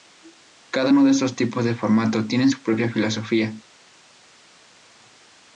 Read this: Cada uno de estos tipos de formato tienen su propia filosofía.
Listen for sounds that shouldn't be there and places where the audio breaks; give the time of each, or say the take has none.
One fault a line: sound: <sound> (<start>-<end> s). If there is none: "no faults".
no faults